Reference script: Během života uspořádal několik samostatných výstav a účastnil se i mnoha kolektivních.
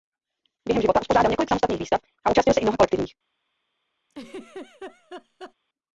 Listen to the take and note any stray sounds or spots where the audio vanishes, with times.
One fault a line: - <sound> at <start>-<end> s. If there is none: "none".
- laugh at 4.1-5.5 s